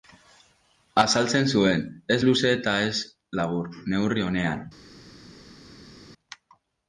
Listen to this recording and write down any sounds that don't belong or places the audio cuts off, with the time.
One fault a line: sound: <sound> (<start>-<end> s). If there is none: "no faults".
no faults